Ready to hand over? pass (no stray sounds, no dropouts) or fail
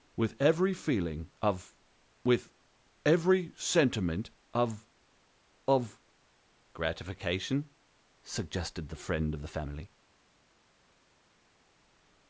pass